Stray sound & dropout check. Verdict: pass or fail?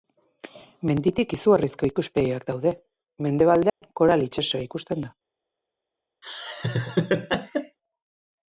fail